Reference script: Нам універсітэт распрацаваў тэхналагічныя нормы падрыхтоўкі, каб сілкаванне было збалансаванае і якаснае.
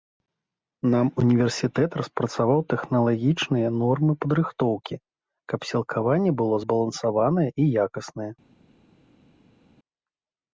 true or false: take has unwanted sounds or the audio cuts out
false